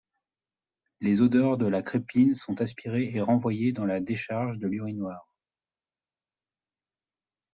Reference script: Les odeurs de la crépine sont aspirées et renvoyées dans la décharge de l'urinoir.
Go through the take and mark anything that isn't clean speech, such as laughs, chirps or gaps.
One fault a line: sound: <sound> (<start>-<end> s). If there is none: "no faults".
no faults